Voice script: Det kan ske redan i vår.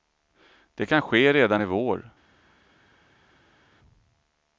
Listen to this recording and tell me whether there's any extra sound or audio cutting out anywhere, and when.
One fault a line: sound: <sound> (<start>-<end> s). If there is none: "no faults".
no faults